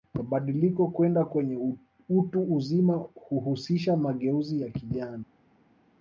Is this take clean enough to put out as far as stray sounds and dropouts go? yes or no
yes